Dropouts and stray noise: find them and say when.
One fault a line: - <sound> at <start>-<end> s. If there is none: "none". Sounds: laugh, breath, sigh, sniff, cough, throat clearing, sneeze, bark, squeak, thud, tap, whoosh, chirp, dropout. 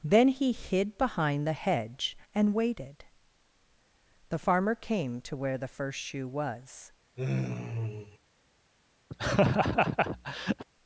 - sigh at 7.2-8.2 s
- laugh at 9.1-10.6 s